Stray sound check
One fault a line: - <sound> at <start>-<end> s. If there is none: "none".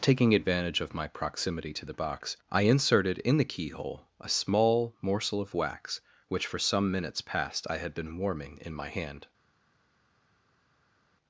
none